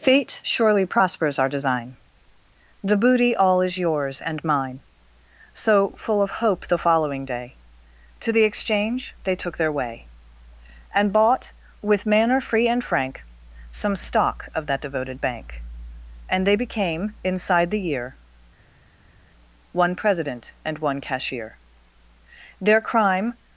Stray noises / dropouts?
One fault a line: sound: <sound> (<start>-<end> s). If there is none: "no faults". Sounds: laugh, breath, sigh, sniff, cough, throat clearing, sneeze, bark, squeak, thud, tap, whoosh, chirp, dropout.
no faults